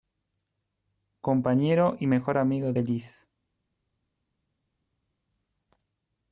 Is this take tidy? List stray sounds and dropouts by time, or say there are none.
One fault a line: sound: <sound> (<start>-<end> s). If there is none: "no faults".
no faults